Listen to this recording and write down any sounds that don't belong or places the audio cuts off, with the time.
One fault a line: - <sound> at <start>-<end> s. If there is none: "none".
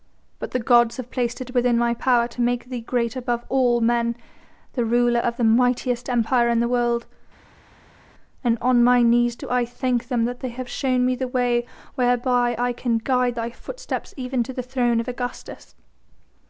none